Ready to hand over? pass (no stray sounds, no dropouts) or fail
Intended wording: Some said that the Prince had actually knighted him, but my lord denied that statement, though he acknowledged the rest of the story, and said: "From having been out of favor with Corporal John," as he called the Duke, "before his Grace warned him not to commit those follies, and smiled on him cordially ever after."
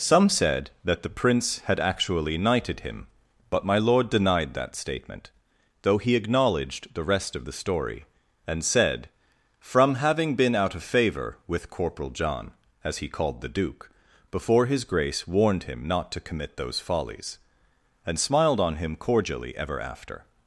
pass